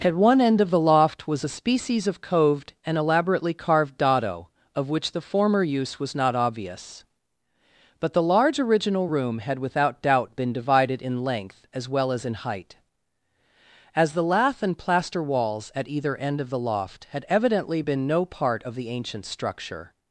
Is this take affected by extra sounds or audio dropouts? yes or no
no